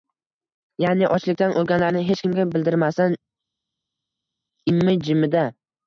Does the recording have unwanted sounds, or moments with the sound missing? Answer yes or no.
no